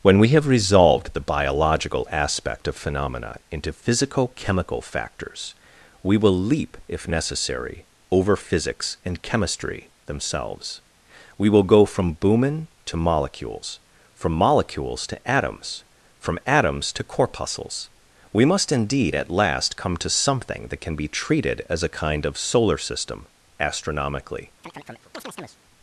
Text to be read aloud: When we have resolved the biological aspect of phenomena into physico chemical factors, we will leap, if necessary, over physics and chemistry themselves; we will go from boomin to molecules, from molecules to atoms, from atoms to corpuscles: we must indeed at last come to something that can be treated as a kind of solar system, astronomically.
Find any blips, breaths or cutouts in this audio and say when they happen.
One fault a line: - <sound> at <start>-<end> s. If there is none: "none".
- chirp at 24.6-25.6 s